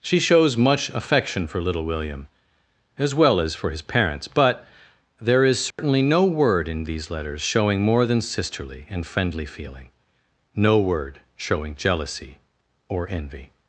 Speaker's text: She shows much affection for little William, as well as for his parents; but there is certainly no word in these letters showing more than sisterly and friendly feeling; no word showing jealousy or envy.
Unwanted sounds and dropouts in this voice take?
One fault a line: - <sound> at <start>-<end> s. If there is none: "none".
- dropout at 5.7-5.8 s